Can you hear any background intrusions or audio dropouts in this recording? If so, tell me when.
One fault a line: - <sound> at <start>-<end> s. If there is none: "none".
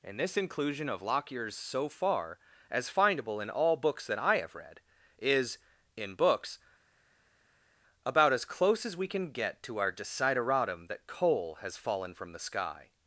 none